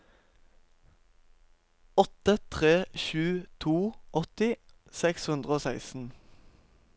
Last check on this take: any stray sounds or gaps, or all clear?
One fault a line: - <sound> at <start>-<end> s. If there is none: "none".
none